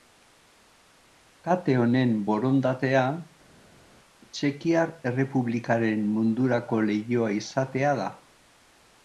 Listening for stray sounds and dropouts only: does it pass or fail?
pass